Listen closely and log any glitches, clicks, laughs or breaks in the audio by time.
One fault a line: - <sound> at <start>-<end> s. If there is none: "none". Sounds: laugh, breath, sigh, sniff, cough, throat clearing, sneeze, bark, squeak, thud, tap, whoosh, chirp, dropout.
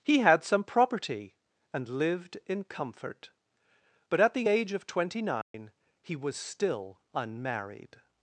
- dropout at 5.4-5.5 s